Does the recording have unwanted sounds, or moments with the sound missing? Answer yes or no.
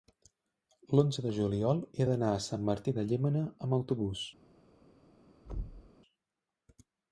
yes